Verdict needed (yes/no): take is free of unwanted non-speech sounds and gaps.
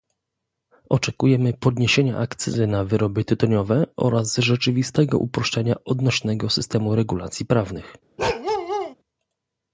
no